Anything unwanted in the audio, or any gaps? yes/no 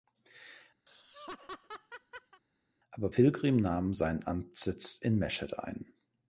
yes